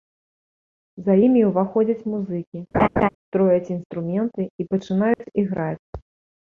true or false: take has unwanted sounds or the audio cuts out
true